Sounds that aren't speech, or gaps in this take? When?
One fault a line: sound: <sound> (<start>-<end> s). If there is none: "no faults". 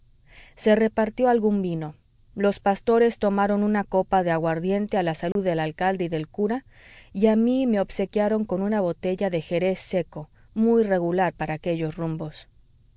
sound: dropout (5.3-5.4 s)